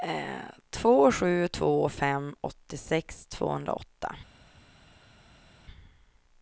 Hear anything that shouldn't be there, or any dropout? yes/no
no